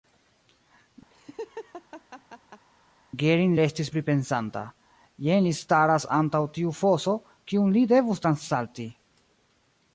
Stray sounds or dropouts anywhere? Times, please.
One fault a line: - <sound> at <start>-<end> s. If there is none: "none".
- laugh at 1.1-2.6 s